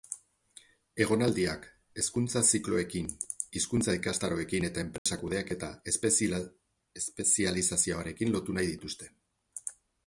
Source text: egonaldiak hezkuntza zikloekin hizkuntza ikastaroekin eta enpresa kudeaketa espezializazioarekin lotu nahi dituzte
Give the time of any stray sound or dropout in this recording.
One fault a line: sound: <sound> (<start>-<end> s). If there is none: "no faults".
sound: dropout (5.0-5.1 s)